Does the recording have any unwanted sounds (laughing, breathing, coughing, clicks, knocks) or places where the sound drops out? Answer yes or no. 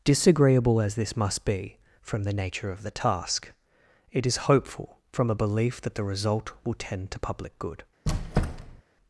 yes